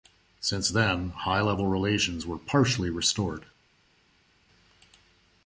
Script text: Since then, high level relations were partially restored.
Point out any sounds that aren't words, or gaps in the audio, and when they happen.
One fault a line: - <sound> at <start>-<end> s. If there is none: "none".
none